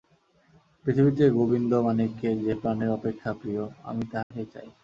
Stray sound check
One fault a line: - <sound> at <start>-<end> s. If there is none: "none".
- dropout at 4.2-4.3 s